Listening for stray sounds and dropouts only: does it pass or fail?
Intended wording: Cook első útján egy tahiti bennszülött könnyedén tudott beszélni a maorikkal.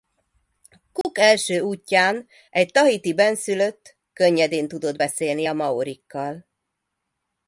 fail